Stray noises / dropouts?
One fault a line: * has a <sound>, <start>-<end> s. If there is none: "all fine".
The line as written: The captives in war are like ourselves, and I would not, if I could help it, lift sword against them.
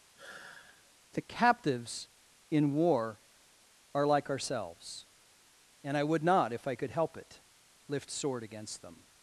* has a sigh, 0.2-1.0 s